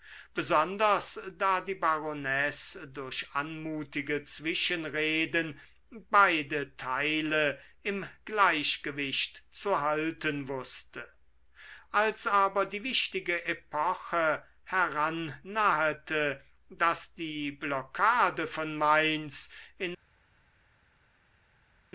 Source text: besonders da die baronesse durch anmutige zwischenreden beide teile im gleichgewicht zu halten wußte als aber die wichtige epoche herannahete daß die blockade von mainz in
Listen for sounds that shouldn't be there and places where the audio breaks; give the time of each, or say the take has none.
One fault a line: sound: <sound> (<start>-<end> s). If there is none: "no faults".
no faults